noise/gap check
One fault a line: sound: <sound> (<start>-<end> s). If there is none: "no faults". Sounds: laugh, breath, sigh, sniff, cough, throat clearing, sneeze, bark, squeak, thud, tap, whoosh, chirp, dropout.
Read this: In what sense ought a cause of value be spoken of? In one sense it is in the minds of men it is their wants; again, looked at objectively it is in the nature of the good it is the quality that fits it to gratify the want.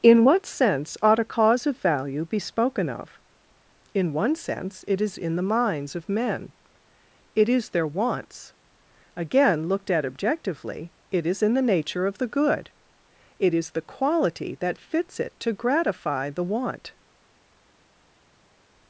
no faults